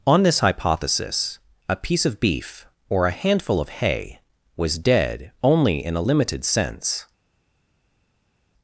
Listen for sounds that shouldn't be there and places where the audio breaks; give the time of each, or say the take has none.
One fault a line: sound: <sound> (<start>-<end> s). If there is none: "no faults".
no faults